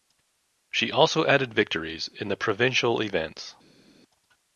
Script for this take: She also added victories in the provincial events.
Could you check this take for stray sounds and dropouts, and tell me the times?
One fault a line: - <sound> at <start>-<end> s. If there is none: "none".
none